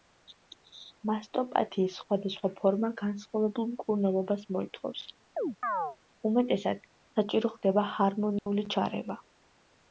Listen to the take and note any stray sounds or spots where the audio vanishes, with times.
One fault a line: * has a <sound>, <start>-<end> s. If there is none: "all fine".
* has a chirp, 5.4-6.0 s
* has a dropout, 8.4-8.5 s